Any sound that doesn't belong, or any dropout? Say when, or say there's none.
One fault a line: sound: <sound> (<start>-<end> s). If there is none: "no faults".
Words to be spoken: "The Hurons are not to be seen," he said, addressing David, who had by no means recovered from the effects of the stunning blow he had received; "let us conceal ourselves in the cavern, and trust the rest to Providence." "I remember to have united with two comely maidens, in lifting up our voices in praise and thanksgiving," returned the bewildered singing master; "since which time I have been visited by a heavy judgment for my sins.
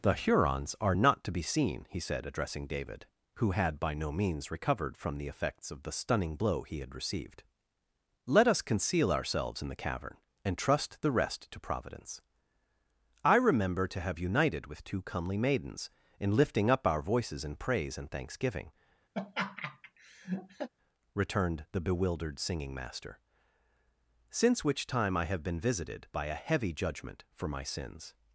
sound: laugh (19.1-20.7 s)